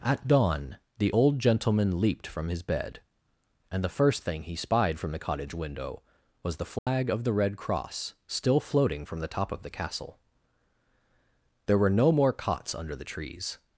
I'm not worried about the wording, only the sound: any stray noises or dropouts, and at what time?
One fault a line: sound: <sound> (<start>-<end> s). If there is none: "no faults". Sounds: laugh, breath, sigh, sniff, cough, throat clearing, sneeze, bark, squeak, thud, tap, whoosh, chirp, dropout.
sound: dropout (6.8-6.9 s)